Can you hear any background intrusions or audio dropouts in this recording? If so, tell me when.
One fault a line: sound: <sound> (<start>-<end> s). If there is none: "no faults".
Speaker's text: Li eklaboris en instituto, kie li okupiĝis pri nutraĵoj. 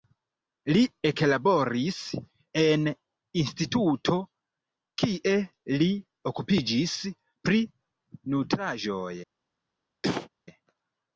sound: cough (10.0-10.3 s)